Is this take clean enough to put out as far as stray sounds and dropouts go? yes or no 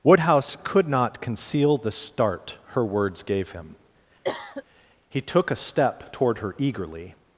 no